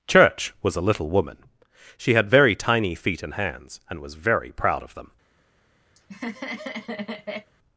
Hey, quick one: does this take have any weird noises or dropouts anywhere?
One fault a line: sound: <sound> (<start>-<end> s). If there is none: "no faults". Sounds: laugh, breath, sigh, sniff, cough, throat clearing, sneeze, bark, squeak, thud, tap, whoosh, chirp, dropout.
sound: laugh (6.0-7.5 s)